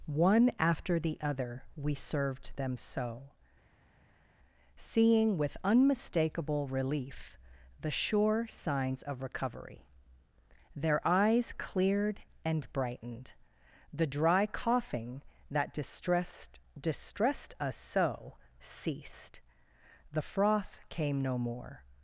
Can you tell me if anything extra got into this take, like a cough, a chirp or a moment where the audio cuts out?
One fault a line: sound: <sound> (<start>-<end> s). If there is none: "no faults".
no faults